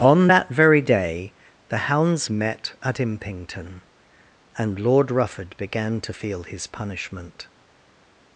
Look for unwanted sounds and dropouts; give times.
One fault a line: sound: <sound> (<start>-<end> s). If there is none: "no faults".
no faults